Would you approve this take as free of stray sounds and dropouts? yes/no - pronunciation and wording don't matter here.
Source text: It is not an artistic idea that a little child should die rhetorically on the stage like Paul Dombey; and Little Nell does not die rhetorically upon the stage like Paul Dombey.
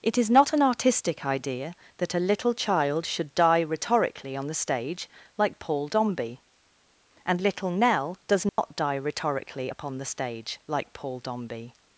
no